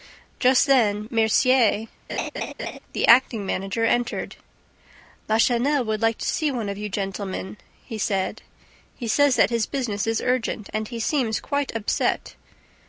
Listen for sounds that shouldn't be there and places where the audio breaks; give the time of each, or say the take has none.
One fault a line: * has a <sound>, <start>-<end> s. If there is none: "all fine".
* has a laugh, 2.1-2.8 s